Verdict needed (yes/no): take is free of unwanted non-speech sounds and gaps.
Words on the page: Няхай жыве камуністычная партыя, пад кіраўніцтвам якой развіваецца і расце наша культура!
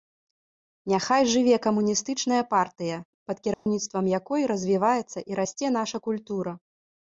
no